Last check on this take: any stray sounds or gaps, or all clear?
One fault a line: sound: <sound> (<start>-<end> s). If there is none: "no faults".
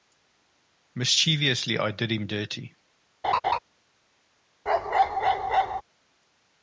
sound: laugh (3.2-3.6 s)
sound: bark (4.7-5.8 s)